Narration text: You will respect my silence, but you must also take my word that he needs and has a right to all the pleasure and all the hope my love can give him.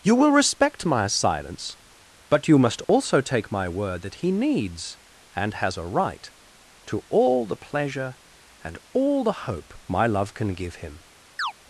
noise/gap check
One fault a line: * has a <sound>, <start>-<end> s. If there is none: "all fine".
* has a dropout, 2.8-2.9 s
* has a chirp, 11.4-11.5 s